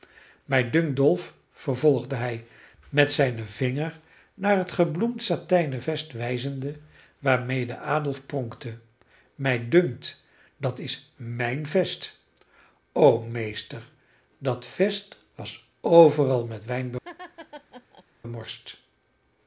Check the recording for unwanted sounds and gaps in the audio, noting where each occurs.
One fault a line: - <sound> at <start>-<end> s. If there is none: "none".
- laugh at 17.0-18.0 s